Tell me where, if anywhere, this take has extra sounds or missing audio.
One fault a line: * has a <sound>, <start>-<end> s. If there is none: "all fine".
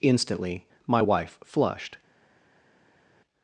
all fine